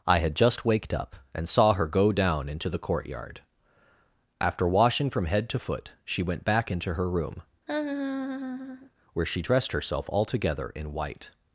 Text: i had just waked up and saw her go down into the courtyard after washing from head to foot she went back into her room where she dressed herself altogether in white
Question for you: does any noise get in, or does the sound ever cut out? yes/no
yes